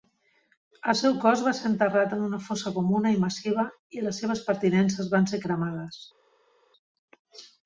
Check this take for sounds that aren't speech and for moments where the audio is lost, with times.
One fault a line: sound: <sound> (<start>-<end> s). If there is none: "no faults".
no faults